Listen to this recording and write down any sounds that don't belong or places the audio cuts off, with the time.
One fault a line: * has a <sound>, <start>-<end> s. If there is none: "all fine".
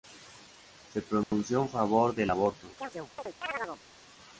* has a dropout, 1.2-1.3 s
* has a chirp, 2.8-3.8 s